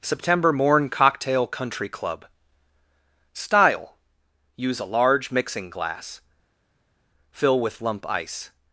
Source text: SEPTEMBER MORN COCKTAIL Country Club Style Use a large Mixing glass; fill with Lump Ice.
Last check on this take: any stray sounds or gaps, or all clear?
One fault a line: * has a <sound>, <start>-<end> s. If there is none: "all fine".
all fine